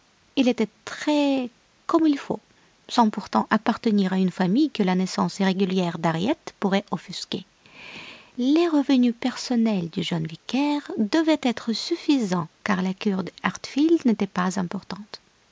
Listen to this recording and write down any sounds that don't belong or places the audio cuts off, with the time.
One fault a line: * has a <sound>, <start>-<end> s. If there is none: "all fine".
all fine